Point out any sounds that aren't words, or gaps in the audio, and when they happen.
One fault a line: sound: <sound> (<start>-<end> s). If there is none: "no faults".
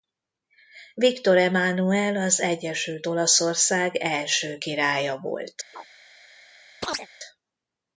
sound: chirp (5.7-5.9 s)
sound: chirp (6.8-7.1 s)